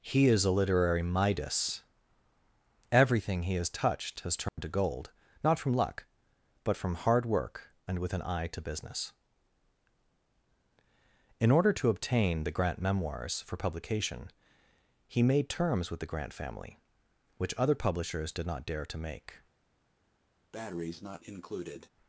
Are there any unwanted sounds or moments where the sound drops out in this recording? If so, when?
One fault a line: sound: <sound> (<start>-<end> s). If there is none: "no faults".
sound: dropout (4.5-4.6 s)
sound: breath (20.5-21.9 s)